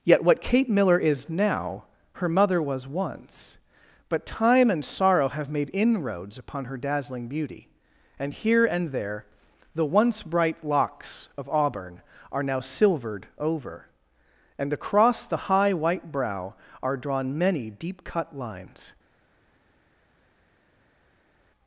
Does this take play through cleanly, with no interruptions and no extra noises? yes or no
yes